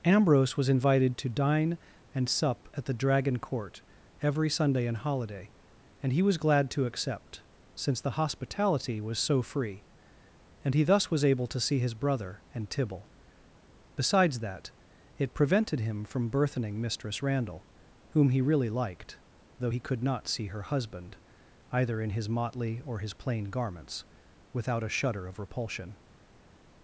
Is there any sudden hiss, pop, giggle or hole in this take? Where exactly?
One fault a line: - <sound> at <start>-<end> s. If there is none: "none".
none